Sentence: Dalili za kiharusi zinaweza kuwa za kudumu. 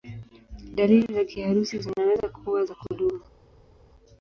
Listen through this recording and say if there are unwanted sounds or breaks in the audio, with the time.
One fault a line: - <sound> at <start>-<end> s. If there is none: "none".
none